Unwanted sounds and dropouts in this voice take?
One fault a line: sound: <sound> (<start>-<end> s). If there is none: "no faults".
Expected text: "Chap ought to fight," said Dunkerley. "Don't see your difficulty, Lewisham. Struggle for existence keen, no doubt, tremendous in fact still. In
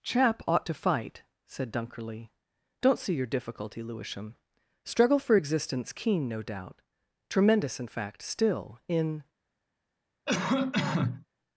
sound: cough (10.3-11.3 s)